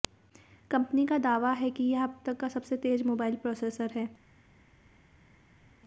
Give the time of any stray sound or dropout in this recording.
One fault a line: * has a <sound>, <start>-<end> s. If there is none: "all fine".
all fine